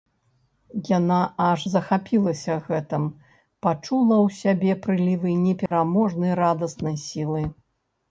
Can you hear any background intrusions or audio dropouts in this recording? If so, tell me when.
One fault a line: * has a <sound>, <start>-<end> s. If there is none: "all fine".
* has a dropout, 5.7-5.7 s